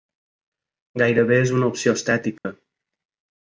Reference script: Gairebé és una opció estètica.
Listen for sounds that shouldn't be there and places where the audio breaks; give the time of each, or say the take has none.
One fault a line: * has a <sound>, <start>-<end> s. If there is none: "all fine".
* has a dropout, 2.4-2.4 s